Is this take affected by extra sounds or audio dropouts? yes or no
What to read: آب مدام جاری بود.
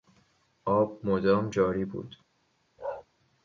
yes